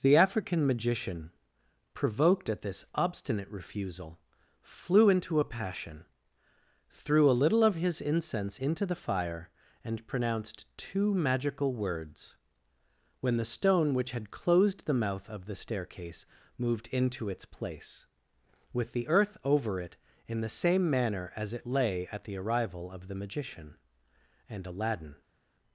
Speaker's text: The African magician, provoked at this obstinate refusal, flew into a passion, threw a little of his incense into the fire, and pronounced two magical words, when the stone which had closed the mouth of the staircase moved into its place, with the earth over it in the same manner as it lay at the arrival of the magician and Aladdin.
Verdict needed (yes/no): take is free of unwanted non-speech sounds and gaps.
yes